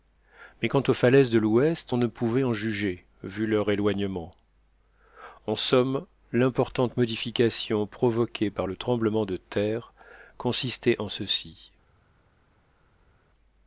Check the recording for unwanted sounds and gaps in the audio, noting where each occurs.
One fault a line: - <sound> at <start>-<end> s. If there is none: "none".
none